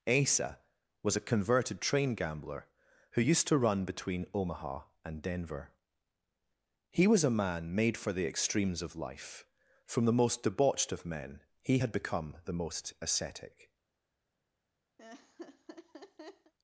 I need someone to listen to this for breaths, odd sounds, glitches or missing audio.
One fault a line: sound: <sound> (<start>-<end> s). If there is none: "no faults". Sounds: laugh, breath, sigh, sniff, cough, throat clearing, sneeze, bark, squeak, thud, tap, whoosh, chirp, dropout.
sound: laugh (15.0-16.5 s)